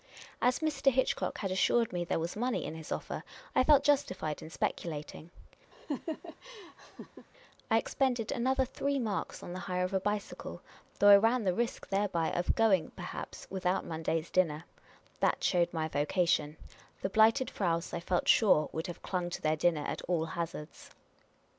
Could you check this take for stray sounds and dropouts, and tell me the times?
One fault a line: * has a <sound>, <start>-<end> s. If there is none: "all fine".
* has a laugh, 5.7-7.3 s